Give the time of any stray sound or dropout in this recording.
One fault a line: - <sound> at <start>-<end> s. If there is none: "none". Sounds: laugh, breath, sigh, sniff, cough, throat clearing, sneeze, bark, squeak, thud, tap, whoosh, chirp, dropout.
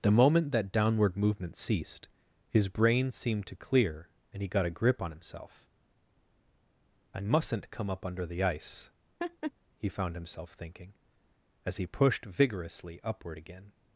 - laugh at 9.2-9.5 s